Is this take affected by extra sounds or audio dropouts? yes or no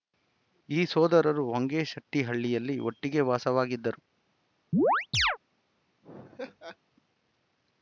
yes